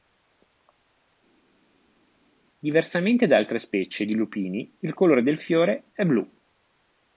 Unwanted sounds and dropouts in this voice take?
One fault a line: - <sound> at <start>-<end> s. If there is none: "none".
none